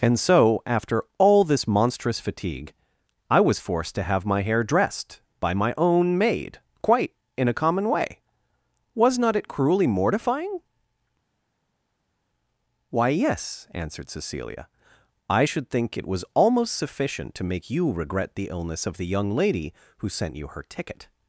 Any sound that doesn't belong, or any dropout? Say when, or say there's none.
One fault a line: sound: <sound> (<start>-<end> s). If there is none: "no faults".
no faults